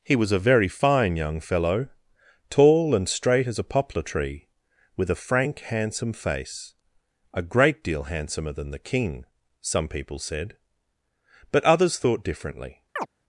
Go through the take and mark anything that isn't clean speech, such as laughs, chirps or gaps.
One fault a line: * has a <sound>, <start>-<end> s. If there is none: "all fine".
* has a chirp, 13.0-13.1 s